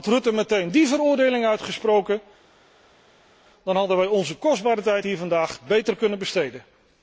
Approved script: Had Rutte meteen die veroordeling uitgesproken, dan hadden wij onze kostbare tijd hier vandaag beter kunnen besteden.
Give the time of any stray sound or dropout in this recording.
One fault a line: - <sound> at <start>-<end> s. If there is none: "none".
none